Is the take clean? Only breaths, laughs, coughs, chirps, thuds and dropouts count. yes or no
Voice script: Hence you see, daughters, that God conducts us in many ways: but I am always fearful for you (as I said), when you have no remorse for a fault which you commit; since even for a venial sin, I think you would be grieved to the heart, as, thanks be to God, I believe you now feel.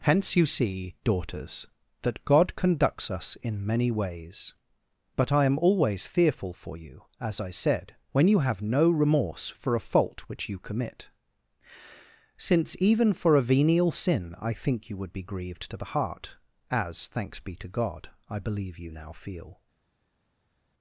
yes